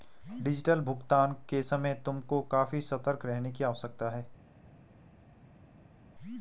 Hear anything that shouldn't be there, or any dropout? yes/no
no